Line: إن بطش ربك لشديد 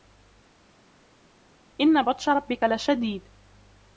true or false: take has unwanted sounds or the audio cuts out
false